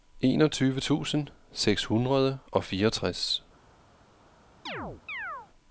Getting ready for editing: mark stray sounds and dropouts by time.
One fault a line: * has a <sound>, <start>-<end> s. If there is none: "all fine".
* has a chirp, 4.7-5.5 s